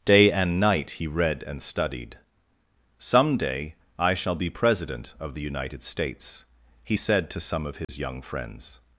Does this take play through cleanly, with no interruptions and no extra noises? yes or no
no